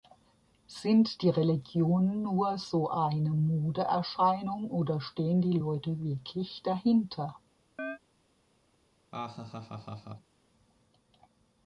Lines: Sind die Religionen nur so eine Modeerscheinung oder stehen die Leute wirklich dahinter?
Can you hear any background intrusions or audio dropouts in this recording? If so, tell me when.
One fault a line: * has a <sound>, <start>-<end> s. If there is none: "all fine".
* has a chirp, 7.8-8.0 s
* has a laugh, 9.1-10.3 s